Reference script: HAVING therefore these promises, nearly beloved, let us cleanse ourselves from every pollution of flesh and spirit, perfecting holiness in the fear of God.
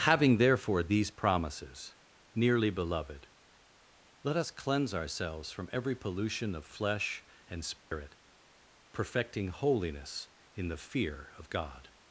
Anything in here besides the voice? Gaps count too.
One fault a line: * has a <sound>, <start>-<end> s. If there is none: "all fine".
* has a dropout, 7.8-7.9 s